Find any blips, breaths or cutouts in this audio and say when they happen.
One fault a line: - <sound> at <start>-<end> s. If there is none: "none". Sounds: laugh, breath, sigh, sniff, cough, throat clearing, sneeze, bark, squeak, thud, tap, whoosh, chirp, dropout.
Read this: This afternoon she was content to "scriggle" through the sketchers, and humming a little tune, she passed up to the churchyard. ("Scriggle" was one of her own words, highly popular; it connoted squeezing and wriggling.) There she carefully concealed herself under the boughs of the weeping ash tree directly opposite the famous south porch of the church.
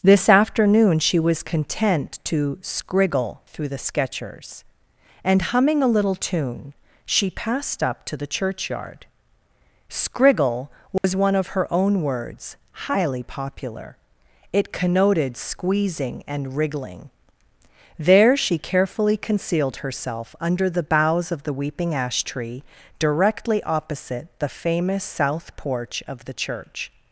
- dropout at 11.0-11.0 s